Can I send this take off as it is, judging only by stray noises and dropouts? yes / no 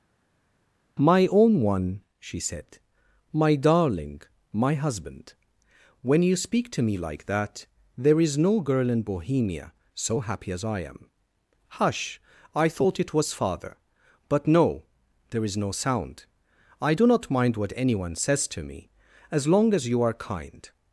yes